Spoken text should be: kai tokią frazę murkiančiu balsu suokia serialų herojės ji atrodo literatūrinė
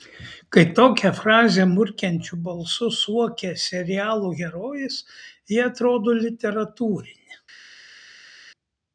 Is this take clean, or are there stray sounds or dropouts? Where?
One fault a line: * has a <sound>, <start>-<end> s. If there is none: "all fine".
all fine